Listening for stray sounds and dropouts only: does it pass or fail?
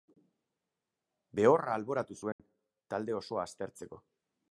fail